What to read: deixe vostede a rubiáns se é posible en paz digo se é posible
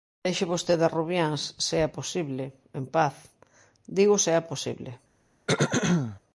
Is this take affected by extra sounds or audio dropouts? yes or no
yes